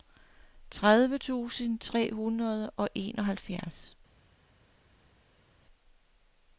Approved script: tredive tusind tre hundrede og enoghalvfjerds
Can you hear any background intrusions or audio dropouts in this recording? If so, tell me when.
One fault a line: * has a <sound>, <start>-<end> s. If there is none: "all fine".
all fine